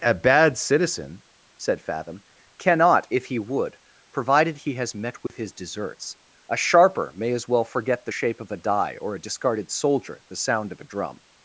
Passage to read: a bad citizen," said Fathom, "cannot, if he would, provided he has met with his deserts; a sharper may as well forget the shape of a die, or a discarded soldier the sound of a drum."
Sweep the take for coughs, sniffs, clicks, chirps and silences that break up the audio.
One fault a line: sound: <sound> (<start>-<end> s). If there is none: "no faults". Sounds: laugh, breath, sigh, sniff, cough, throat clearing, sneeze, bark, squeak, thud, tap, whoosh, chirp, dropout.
sound: dropout (5.3-5.3 s)